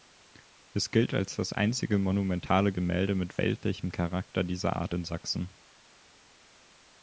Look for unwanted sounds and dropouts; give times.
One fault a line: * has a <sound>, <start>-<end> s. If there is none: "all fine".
all fine